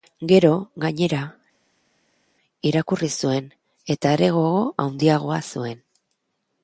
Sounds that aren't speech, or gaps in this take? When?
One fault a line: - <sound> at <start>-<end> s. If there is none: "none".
none